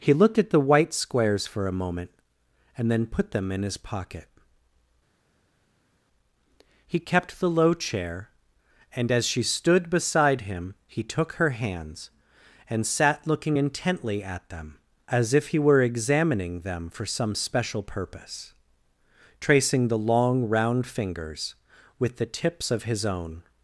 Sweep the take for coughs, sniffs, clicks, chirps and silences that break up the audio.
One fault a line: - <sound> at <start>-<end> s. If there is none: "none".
none